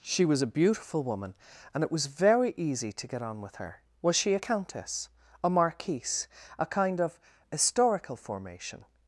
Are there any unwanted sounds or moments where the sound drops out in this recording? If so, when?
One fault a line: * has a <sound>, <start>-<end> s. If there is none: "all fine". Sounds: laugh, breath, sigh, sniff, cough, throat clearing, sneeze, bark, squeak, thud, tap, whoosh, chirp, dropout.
all fine